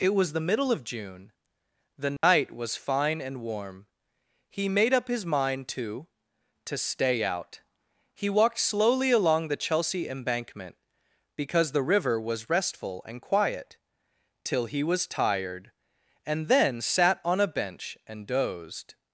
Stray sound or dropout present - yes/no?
yes